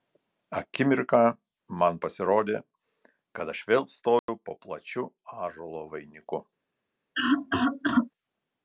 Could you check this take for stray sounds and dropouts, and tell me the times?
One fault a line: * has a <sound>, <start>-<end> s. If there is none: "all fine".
* has a dropout, 4.2-4.3 s
* has a cough, 7.1-8.1 s